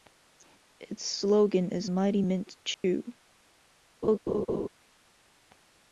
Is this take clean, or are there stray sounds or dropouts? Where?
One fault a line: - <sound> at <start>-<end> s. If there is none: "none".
- dropout at 2.7-2.8 s
- laugh at 4.0-4.7 s